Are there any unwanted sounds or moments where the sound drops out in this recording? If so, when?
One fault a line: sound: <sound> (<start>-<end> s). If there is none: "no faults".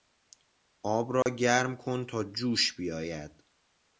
sound: dropout (1.2-1.3 s)